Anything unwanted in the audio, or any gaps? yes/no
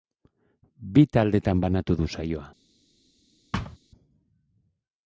yes